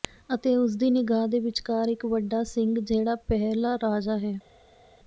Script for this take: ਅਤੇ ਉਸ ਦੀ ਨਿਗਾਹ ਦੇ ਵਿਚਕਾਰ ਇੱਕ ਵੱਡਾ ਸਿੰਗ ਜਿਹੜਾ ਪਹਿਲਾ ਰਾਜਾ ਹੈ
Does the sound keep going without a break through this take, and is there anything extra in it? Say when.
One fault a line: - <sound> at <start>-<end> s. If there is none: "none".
none